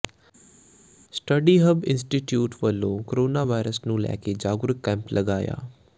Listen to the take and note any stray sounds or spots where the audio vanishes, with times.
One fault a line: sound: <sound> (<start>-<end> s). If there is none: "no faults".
no faults